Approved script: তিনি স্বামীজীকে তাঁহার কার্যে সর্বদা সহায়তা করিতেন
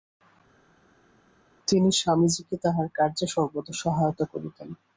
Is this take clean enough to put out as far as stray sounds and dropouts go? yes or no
yes